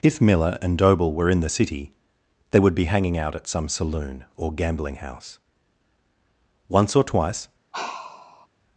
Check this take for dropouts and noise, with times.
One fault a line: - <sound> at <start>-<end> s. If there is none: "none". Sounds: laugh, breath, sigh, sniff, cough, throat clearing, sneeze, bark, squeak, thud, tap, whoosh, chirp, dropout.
- sigh at 7.7-8.5 s